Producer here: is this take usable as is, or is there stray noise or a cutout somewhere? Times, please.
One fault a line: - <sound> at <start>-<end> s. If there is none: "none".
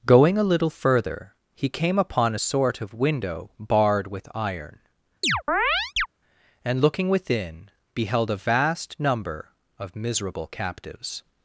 - chirp at 5.2-6.1 s